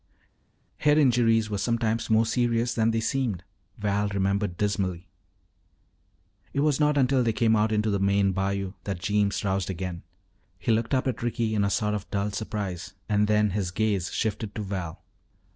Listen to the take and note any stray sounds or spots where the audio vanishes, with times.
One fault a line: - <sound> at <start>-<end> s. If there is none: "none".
none